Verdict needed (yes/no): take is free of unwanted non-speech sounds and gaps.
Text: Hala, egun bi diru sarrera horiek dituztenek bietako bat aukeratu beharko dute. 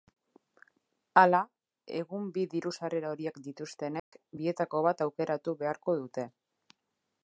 no